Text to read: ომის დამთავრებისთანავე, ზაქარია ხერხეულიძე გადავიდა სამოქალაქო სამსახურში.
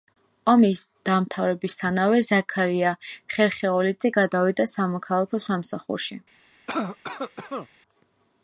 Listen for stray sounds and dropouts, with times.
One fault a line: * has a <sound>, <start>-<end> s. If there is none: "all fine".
* has a cough, 6.7-7.7 s